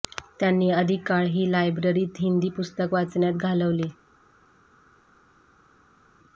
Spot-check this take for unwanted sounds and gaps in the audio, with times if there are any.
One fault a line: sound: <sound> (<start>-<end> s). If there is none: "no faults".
no faults